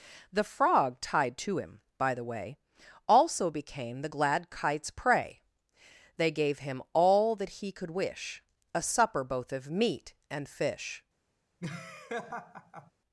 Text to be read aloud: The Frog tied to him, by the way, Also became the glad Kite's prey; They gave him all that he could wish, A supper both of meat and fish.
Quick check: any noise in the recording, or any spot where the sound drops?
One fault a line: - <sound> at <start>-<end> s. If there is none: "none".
- laugh at 11.6-12.9 s